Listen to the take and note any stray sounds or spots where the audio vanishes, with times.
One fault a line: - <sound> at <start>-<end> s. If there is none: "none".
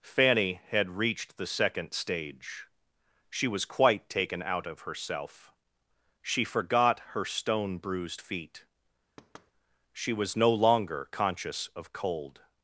- thud at 9.2-9.5 s